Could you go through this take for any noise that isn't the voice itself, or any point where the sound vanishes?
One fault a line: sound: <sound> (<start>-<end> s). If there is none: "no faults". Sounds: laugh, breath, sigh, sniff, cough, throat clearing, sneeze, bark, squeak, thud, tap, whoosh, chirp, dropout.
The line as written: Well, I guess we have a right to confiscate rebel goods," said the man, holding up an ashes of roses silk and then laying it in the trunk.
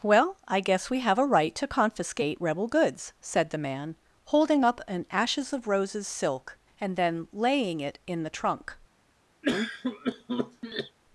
sound: cough (9.4-11.0 s)